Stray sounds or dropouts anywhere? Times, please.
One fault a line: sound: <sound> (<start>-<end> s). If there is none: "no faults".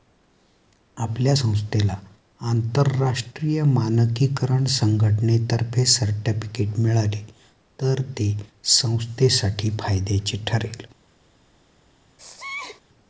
sound: sneeze (12.2-12.8 s)